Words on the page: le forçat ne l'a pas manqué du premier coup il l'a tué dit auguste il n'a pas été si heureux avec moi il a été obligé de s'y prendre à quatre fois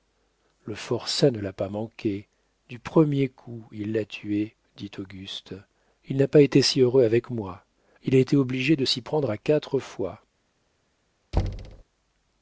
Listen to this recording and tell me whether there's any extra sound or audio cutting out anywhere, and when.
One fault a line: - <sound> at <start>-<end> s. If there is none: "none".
- thud at 11.3-11.8 s